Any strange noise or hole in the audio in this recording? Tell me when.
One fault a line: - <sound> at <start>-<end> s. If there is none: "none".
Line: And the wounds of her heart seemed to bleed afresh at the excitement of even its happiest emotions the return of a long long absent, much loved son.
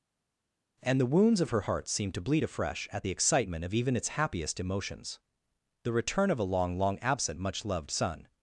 none